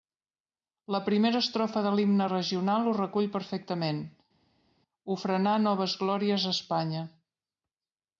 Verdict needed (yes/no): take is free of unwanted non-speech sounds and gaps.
yes